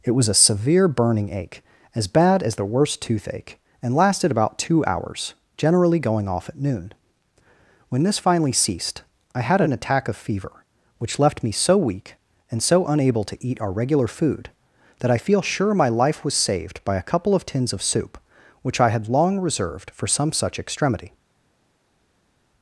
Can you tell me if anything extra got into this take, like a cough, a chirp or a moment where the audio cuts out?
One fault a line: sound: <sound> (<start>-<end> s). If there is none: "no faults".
no faults